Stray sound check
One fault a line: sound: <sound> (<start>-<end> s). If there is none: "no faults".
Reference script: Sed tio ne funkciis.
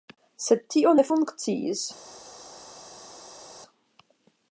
no faults